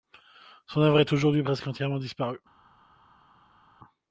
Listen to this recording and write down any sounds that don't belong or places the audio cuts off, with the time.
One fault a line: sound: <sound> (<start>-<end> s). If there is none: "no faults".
no faults